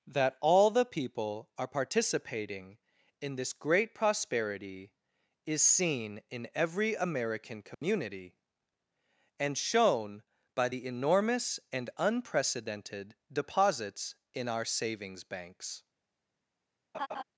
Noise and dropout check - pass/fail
fail